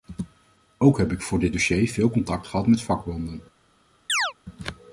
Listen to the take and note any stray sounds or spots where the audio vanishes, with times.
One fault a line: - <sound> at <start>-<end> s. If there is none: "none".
- chirp at 4.1-4.3 s